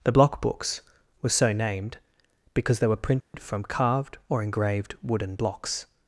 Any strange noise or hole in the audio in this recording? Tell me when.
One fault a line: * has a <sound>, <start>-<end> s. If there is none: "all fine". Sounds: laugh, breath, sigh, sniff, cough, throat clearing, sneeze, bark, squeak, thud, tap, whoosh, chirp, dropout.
* has a dropout, 3.2-3.3 s